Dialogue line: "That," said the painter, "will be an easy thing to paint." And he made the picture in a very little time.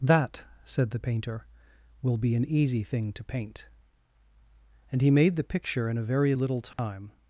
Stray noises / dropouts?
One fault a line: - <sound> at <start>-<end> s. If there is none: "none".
- dropout at 6.7-6.8 s